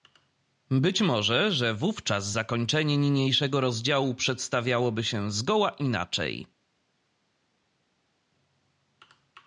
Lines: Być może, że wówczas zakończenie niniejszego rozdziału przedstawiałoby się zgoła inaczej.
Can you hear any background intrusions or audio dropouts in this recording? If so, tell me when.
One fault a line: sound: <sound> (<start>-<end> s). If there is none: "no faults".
no faults